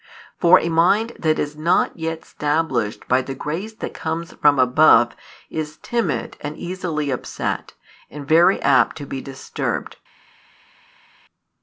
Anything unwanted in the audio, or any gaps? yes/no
no